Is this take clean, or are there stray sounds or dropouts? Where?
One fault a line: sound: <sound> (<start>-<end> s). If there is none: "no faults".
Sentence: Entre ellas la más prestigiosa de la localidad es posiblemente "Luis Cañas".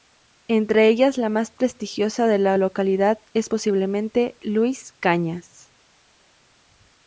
no faults